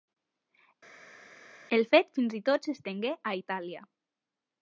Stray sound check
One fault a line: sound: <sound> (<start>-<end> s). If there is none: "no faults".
no faults